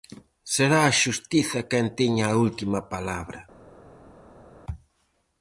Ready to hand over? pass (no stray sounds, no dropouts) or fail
pass